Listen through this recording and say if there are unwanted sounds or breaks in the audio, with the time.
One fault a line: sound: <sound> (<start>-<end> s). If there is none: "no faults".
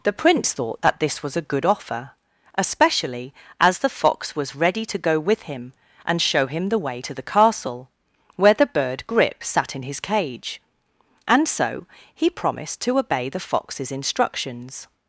no faults